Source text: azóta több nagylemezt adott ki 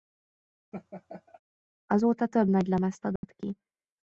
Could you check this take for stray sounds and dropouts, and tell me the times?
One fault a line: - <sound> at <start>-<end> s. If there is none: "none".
- laugh at 0.7-1.4 s
- dropout at 3.2-3.2 s